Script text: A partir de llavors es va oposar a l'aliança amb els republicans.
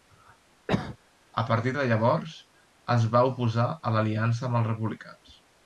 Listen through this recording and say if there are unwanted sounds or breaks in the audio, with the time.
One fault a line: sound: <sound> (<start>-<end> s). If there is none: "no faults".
sound: cough (0.7-1.0 s)